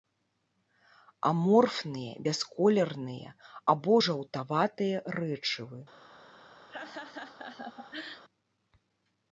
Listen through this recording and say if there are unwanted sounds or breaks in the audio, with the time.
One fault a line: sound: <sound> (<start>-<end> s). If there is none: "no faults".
sound: laugh (6.7-8.2 s)